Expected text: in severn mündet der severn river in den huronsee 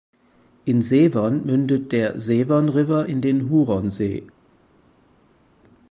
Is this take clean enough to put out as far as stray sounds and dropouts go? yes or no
yes